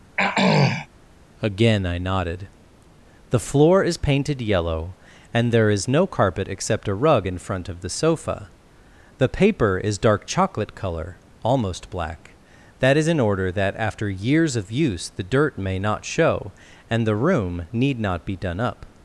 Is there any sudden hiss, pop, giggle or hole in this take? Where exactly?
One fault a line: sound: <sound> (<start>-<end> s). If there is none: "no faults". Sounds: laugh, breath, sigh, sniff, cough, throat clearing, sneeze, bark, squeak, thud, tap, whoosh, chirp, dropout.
sound: throat clearing (0.2-0.9 s)